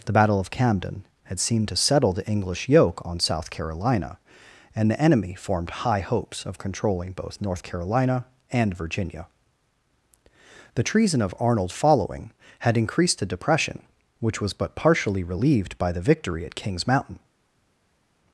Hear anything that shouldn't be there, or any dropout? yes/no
no